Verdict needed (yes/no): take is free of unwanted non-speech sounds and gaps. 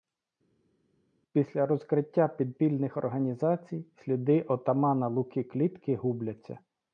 yes